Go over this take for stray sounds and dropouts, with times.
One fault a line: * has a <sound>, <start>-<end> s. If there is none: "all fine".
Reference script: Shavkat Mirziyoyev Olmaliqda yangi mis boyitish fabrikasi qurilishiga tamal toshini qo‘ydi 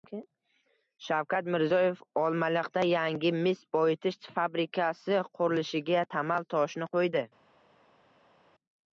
all fine